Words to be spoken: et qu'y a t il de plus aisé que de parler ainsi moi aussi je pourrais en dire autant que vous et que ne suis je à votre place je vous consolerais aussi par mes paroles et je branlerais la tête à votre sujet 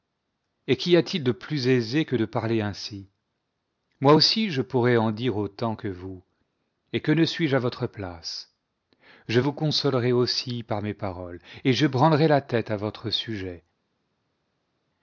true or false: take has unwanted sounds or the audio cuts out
false